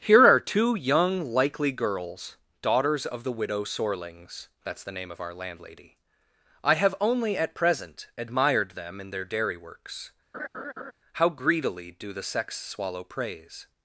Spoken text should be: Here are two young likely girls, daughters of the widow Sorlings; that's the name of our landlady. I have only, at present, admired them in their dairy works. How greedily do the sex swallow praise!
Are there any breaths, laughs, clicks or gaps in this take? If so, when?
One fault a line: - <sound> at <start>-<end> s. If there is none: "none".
- laugh at 10.3-10.9 s